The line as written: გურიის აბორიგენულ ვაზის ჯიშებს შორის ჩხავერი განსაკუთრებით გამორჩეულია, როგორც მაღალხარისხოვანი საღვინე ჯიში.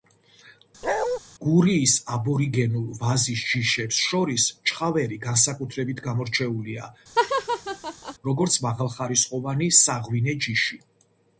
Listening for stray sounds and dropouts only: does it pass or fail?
fail